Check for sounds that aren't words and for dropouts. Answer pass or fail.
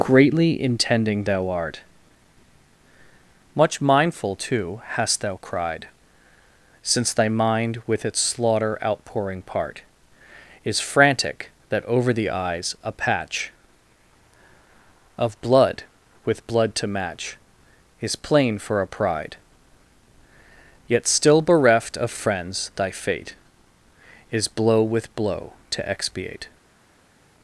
pass